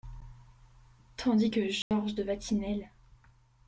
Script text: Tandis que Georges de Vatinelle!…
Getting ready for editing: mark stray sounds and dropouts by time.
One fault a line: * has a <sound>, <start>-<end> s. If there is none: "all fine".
* has a dropout, 1.8-1.9 s